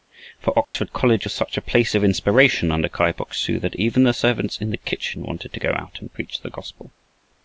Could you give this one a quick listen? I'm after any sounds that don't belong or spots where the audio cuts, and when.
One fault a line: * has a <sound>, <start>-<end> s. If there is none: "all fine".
* has a dropout, 0.6-0.7 s